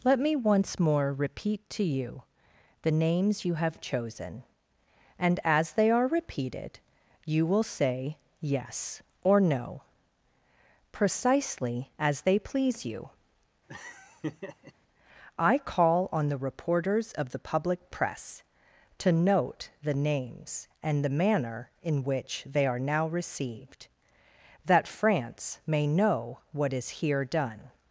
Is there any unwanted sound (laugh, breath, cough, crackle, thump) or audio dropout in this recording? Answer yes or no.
yes